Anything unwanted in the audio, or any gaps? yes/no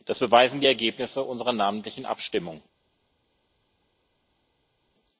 no